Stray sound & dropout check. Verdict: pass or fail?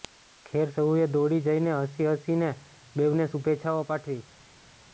pass